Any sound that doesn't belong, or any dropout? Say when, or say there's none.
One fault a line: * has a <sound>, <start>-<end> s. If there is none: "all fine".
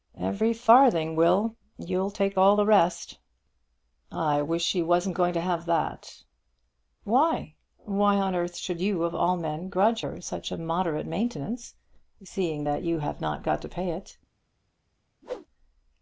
* has a whoosh, 15.2-15.5 s